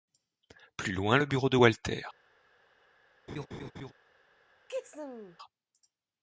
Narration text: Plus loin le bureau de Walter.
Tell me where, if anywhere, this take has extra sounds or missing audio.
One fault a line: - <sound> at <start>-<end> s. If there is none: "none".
- laugh at 3.3-3.9 s
- sneeze at 4.7-5.4 s